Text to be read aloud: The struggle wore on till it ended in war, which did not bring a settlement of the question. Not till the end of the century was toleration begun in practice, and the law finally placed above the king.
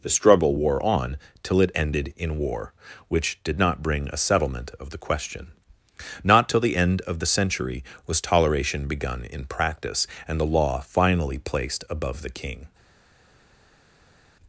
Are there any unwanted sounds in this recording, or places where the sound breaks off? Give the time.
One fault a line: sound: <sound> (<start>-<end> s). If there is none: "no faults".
no faults